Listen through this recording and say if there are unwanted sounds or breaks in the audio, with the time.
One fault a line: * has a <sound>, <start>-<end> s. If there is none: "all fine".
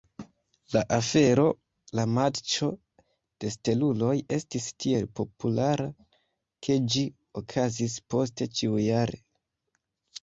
all fine